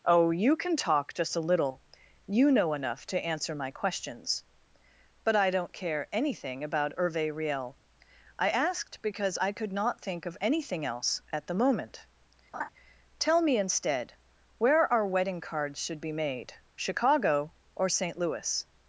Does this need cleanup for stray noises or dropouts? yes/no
yes